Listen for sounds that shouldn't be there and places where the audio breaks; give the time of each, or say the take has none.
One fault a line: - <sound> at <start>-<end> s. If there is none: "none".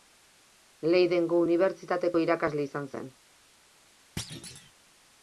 - thud at 4.2-4.7 s